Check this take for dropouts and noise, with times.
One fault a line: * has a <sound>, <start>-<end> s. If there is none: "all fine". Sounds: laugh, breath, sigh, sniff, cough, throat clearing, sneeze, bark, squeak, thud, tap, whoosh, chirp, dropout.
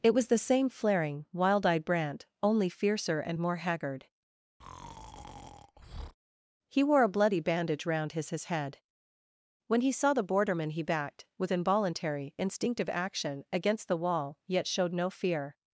* has a breath, 4.6-6.1 s